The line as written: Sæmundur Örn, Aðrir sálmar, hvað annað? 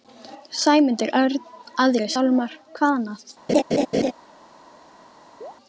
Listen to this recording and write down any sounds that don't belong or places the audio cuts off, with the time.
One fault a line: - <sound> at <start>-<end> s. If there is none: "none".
- laugh at 3.5-4.1 s
- chirp at 5.4-5.5 s